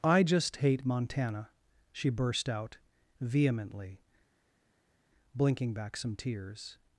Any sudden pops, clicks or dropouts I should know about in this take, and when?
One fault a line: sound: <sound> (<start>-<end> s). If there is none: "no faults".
no faults